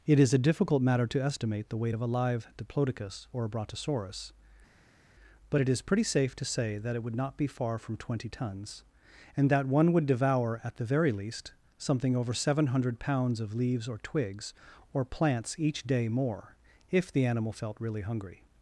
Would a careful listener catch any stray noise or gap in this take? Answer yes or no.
no